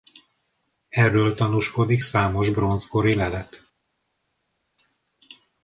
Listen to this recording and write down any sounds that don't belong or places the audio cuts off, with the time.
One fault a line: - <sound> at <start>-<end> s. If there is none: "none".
none